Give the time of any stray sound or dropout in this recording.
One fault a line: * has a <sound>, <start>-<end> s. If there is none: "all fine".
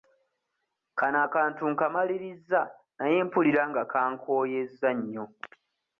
all fine